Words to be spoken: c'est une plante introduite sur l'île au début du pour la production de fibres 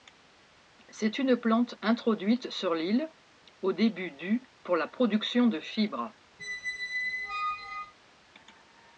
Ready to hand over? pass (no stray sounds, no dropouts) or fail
fail